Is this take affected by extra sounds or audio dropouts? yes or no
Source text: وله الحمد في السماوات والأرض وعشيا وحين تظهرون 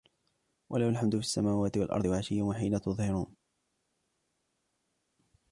no